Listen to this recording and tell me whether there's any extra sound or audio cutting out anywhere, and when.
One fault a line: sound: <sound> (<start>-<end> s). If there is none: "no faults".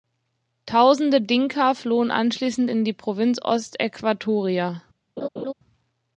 sound: laugh (5.2-5.5 s)